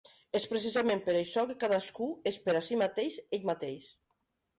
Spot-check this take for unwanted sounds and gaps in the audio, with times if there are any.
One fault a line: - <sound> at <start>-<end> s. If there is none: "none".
none